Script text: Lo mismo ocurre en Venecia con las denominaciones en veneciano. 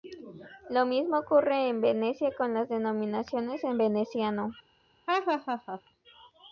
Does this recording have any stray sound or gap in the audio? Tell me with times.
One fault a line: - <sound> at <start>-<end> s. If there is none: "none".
- laugh at 5.1-5.8 s